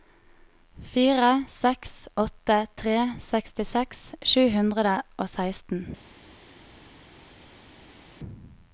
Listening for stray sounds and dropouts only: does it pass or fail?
pass